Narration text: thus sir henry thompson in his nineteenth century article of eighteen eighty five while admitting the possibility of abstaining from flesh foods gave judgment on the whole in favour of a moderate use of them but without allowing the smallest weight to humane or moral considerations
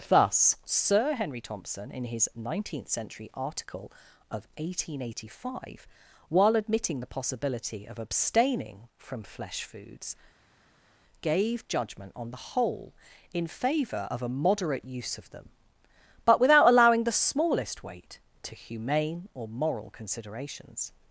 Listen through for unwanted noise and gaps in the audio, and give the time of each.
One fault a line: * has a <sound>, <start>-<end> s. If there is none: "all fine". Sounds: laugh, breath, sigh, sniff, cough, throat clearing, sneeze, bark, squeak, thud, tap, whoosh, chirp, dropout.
all fine